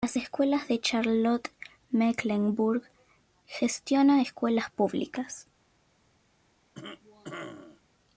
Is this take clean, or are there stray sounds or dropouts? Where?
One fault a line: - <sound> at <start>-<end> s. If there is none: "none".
- cough at 6.7-7.8 s